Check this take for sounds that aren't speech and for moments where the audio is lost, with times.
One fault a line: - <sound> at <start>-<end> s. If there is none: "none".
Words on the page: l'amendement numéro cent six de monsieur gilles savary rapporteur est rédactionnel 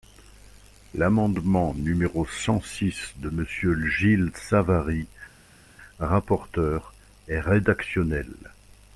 none